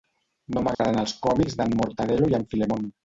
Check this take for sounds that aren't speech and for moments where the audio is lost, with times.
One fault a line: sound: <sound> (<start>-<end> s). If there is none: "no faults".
sound: dropout (0.7-0.8 s)